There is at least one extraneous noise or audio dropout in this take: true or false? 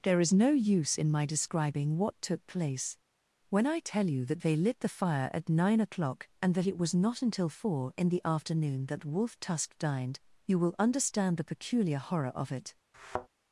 true